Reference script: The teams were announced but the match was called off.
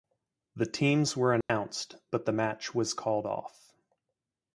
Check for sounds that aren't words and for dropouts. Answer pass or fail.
fail